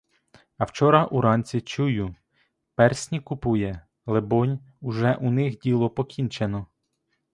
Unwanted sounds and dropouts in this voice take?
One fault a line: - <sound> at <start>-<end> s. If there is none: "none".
none